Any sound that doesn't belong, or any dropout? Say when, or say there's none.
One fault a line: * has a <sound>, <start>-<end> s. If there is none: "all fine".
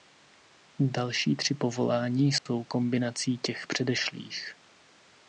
* has a dropout, 2.4-2.5 s